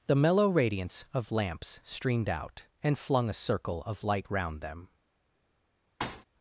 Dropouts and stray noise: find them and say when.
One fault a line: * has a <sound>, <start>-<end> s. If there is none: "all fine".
* has a thud, 6.0-6.3 s